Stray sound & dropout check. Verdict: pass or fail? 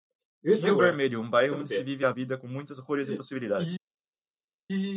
pass